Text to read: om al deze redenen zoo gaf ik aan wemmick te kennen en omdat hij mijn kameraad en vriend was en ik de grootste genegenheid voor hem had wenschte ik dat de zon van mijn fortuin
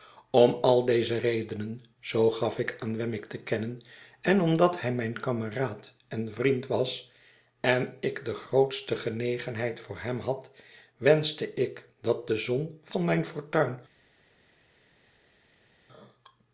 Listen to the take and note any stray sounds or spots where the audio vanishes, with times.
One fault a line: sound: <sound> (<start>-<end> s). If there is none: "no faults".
no faults